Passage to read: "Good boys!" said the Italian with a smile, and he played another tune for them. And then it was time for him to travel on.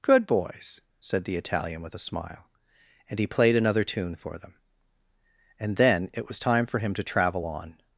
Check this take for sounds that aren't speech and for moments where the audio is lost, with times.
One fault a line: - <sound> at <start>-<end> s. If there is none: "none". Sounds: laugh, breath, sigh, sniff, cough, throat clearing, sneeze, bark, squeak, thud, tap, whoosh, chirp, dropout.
none